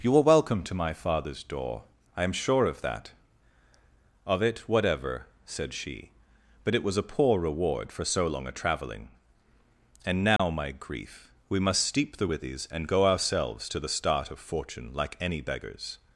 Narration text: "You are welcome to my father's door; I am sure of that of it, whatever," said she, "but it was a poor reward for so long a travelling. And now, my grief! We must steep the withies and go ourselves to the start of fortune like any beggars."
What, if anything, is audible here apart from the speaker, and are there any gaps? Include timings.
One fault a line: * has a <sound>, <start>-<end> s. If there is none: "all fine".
* has a dropout, 10.4-10.4 s